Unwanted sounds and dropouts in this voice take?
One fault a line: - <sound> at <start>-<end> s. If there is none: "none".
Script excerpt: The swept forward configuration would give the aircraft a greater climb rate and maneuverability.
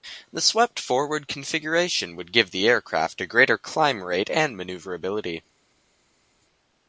none